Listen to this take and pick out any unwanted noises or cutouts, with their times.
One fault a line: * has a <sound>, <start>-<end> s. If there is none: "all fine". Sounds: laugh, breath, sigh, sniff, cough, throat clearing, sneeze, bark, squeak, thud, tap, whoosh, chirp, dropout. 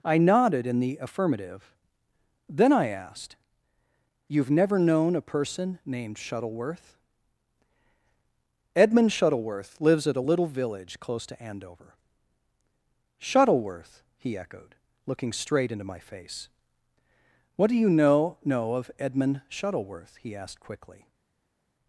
all fine